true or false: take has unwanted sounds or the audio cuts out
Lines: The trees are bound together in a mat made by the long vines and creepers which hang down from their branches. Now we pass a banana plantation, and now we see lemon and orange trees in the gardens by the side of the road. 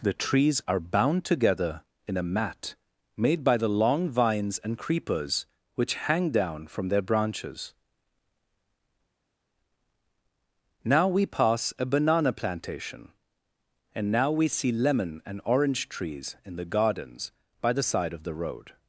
false